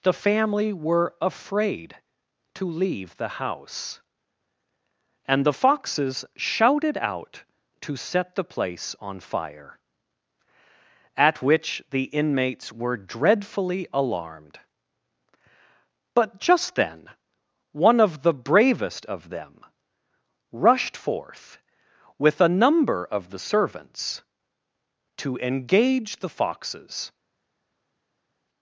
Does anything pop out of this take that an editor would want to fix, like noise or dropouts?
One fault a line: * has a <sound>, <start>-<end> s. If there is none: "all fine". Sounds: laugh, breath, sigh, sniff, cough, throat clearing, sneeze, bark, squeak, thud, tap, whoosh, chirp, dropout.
all fine